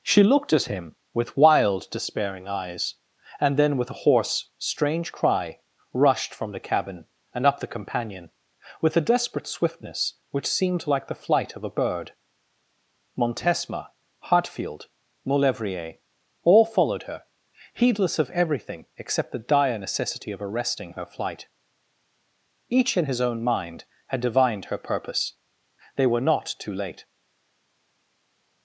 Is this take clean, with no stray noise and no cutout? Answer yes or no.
yes